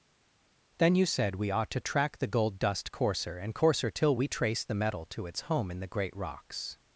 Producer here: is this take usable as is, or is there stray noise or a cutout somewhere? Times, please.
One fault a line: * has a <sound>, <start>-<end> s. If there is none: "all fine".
all fine